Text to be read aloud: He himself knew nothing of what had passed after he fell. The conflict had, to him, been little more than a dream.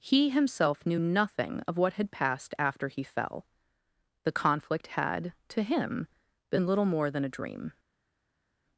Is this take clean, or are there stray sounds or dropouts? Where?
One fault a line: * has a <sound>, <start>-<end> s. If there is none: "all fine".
all fine